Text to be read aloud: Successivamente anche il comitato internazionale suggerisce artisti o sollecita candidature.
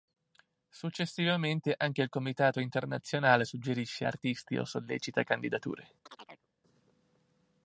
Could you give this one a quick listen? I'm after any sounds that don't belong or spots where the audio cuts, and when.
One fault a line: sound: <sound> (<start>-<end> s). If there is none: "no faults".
sound: chirp (6.1-6.5 s)